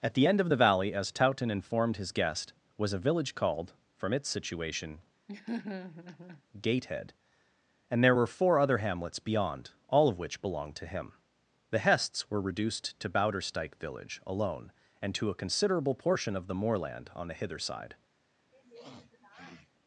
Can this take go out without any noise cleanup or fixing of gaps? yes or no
no